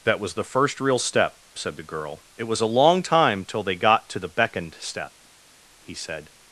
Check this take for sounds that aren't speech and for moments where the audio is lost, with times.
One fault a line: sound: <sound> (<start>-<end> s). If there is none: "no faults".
no faults